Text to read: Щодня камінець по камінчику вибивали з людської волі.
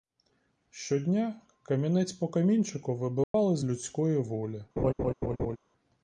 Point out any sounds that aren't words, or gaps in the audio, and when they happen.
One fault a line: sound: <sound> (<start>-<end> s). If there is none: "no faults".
sound: dropout (3.2-3.3 s)
sound: laugh (4.8-5.6 s)